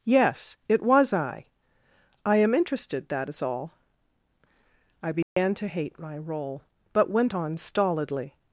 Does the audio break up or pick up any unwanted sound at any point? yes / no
yes